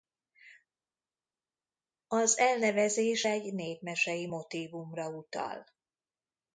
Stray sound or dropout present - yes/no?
no